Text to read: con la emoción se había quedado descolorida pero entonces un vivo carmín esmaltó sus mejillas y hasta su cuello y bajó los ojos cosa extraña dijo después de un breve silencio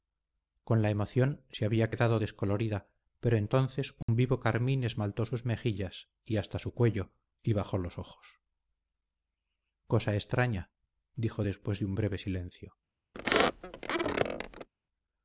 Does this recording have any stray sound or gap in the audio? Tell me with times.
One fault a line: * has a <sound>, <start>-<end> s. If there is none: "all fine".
* has a dropout, 4.0-4.1 s
* has a squeak, 13.1-14.7 s